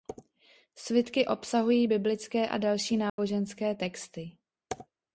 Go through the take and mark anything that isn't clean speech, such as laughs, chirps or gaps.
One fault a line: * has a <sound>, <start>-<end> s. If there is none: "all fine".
* has a dropout, 3.1-3.2 s